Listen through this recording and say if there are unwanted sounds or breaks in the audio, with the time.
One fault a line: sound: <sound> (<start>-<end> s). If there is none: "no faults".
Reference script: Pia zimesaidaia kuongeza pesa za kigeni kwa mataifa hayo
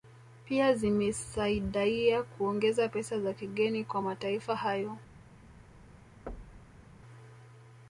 sound: thud (6.3-6.8 s)